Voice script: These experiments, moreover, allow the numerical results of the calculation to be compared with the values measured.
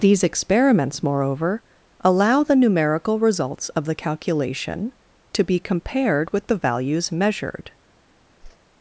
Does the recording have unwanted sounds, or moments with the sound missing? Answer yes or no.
yes